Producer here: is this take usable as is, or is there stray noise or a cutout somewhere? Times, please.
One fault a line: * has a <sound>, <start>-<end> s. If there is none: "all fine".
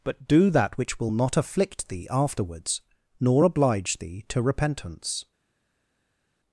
all fine